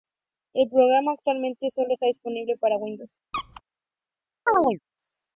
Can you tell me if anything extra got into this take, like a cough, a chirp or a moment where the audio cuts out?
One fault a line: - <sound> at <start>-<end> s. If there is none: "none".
- squeak at 3.3-3.6 s
- chirp at 4.5-4.8 s